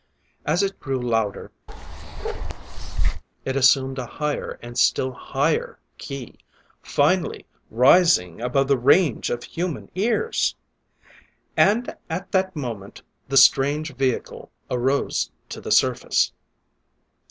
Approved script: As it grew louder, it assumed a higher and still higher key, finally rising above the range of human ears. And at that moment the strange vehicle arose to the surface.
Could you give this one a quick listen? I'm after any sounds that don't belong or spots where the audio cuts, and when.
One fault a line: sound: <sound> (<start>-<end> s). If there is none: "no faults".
sound: bark (1.7-3.2 s)